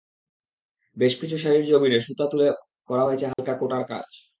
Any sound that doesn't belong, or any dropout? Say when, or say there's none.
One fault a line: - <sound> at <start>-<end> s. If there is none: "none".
- dropout at 3.3-3.4 s